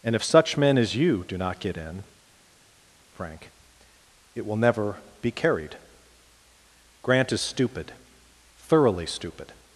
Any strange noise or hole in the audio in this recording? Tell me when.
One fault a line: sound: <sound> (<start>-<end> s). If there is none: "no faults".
no faults